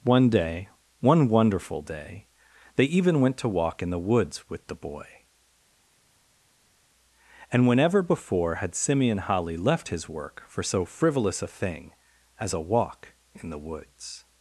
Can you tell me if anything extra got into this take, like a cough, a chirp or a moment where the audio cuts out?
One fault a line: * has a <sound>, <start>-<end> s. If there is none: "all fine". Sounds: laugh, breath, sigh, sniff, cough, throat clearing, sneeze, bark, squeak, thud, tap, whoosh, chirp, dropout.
all fine